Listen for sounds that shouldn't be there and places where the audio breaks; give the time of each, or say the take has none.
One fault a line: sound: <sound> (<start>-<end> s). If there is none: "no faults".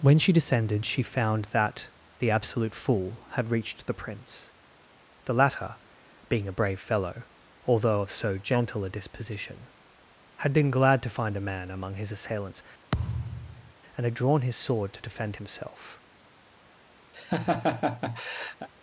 sound: thud (12.9-13.7 s)
sound: laugh (17.1-18.7 s)